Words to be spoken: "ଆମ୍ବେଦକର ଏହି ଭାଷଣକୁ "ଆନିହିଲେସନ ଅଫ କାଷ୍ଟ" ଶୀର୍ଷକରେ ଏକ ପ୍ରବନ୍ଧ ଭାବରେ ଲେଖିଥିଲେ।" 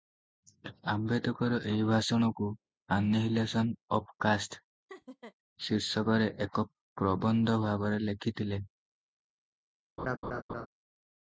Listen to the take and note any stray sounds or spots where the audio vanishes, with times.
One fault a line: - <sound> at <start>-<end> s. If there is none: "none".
- laugh at 4.9-5.3 s
- laugh at 10.0-10.7 s